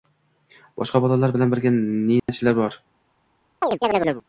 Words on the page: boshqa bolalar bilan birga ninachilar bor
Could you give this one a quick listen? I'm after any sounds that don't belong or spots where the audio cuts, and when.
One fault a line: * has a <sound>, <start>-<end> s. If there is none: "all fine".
* has a dropout, 2.2-2.3 s
* has a chirp, 3.6-4.2 s